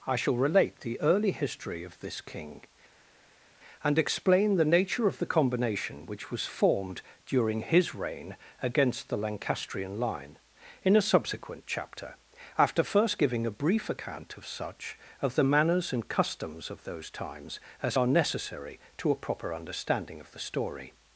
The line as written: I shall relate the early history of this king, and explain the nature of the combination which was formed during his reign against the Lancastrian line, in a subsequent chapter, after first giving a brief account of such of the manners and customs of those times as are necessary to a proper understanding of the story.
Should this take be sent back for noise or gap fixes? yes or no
no